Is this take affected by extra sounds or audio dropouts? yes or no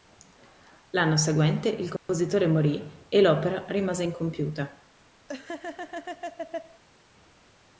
yes